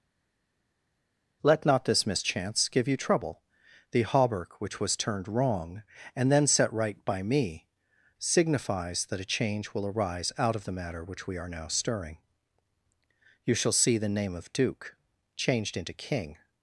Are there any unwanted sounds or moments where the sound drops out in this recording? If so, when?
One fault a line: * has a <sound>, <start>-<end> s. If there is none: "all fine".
all fine